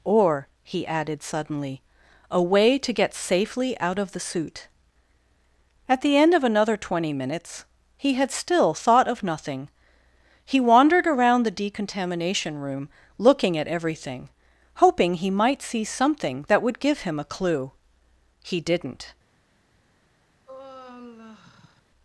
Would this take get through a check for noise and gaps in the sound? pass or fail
fail